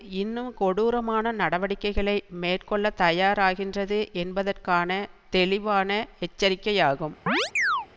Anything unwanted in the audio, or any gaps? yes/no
yes